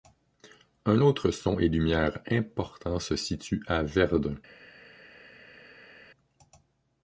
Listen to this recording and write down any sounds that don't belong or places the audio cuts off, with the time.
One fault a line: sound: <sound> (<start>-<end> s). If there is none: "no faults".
no faults